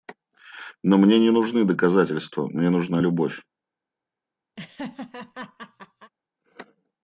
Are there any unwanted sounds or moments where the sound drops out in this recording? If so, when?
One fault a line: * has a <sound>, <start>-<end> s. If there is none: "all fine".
* has a laugh, 4.6-6.1 s